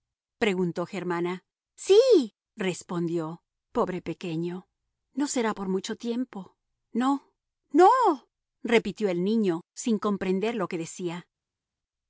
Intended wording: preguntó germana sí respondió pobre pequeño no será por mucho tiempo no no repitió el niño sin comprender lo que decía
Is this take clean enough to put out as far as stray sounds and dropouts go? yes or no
yes